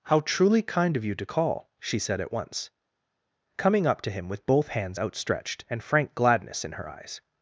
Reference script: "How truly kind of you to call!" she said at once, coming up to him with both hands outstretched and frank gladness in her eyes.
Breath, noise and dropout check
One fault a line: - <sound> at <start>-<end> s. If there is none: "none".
none